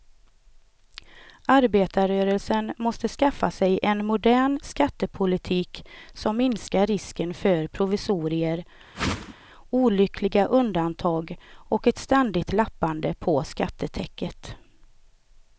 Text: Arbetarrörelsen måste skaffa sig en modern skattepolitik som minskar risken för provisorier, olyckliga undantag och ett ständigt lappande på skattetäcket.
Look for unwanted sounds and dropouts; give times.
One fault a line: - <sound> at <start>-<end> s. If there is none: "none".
- whoosh at 8.9-9.3 s